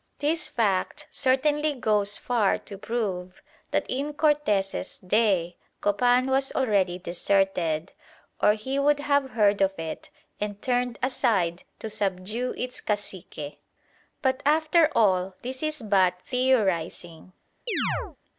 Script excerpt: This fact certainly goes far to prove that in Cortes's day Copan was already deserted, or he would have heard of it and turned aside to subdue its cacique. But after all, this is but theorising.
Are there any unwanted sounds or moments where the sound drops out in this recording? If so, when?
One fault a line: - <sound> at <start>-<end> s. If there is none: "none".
- chirp at 17.7-18.2 s